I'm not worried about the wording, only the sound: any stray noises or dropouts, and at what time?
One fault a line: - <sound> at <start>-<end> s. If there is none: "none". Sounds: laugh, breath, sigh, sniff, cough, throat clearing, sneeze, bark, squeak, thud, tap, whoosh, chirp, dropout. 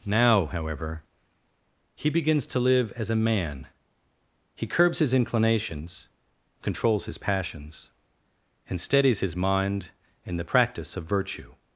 none